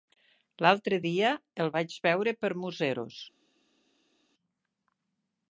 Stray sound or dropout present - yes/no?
no